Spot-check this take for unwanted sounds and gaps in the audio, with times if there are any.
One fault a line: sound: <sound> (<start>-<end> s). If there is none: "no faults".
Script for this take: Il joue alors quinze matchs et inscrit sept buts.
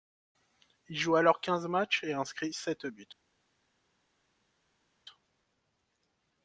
no faults